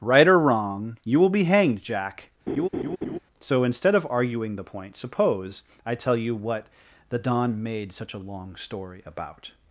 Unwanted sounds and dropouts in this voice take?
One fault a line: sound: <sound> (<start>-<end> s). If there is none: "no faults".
sound: laugh (2.5-3.2 s)